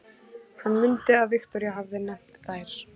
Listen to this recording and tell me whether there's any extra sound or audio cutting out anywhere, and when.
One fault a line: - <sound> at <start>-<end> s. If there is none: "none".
none